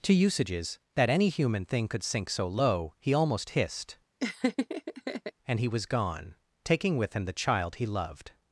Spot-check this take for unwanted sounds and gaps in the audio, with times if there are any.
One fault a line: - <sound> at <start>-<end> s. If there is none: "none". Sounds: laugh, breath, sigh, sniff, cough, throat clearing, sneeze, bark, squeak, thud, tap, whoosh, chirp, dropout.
- laugh at 4.2-5.3 s